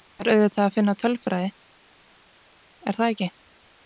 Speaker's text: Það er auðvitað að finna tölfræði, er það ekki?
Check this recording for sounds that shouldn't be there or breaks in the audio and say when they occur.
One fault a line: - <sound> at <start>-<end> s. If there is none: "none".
none